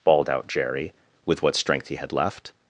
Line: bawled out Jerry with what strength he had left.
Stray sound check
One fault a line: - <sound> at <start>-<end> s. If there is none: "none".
none